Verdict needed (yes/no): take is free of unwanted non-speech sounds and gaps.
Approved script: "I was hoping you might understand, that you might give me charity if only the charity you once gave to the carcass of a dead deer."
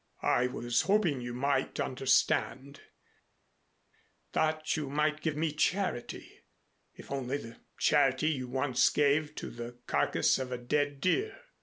yes